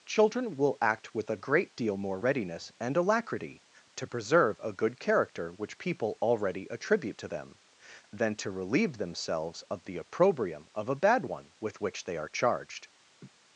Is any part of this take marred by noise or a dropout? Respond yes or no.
yes